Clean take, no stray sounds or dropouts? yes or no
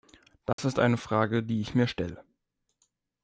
no